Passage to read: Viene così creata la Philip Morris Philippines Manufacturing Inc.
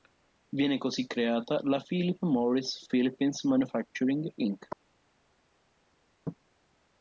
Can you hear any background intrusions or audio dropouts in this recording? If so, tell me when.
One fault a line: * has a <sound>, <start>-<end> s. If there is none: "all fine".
all fine